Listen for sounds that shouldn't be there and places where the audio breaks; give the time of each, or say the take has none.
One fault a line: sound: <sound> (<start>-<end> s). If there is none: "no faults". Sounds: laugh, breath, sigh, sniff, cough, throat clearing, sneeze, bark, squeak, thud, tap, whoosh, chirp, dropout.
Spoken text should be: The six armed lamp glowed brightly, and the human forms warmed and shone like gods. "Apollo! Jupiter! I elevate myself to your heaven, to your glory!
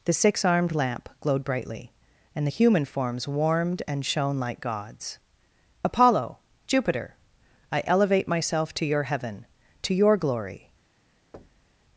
sound: thud (11.3-11.8 s)